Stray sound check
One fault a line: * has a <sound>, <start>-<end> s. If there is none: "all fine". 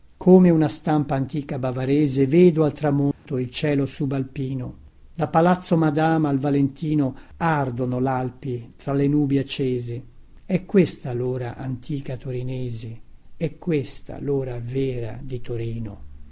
* has a dropout, 3.1-3.3 s